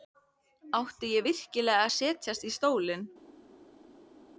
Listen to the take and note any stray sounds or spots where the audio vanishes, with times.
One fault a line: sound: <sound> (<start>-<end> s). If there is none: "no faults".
no faults